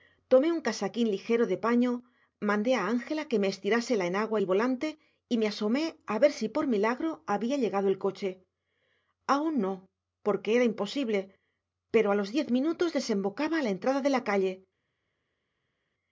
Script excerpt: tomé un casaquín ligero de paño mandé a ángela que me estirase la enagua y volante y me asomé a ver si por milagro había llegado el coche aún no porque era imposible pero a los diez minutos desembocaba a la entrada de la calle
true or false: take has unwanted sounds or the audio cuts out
false